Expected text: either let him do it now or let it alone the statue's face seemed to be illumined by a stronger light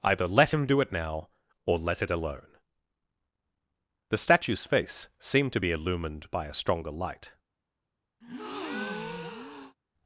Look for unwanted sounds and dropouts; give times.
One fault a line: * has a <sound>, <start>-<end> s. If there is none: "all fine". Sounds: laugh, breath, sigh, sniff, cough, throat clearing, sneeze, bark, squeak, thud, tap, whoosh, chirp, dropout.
* has a breath, 8.2-9.8 s